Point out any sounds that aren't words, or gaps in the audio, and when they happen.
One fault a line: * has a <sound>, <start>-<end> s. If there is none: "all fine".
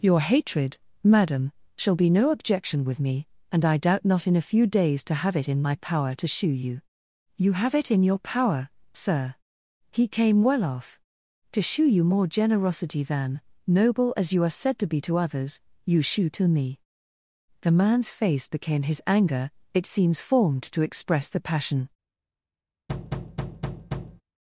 * has a thud, 22.9-24.2 s